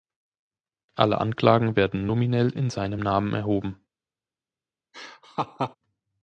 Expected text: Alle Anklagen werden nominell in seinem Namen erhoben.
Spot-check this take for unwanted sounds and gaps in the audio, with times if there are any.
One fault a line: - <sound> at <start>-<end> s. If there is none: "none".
- laugh at 4.9-5.8 s